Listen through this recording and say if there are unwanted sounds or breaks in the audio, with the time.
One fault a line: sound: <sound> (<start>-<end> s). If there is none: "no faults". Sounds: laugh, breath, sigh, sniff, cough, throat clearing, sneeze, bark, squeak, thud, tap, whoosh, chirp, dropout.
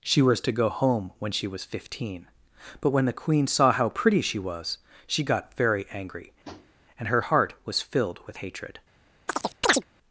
sound: tap (6.4-6.7 s)
sound: chirp (9.3-9.8 s)